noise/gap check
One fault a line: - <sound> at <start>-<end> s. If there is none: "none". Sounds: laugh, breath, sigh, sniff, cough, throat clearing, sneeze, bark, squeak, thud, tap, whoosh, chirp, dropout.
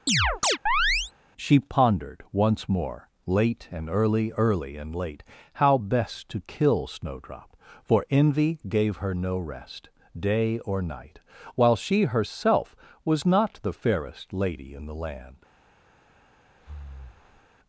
- chirp at 0.1-1.1 s
- breath at 16.6-17.5 s